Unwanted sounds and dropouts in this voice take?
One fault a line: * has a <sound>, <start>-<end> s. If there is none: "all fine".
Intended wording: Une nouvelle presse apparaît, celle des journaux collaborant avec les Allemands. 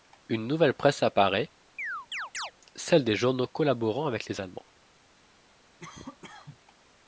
* has a chirp, 1.8-2.5 s
* has a cough, 5.8-6.6 s